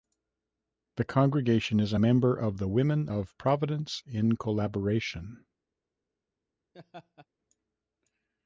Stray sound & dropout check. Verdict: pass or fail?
fail